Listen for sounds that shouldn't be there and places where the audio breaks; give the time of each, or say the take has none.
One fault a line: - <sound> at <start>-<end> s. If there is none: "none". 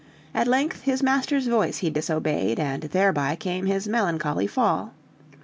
none